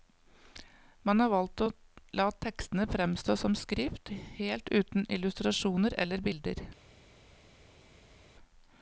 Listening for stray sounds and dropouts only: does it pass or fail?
pass